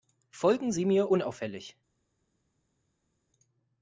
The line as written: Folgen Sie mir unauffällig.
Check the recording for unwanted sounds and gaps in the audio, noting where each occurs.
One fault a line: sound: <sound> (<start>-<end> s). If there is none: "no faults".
no faults